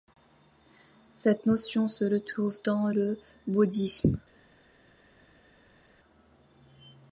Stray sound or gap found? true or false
false